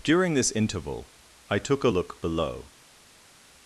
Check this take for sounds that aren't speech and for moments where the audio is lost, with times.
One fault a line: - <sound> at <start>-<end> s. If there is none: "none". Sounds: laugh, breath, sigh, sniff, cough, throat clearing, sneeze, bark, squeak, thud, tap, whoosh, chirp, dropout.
none